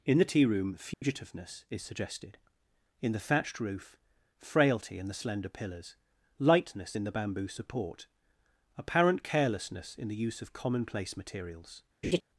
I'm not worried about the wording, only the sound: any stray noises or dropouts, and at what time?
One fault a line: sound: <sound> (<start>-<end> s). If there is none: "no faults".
sound: dropout (0.9-1.0 s)
sound: laugh (12.0-12.2 s)